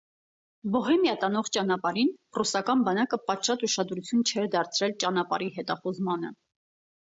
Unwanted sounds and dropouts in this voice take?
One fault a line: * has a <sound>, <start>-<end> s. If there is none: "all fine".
all fine